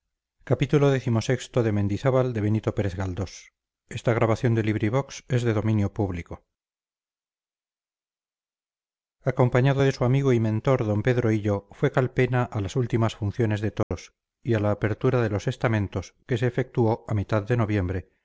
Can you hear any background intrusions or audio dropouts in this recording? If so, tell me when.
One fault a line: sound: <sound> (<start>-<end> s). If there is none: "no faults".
sound: dropout (13.8-13.9 s)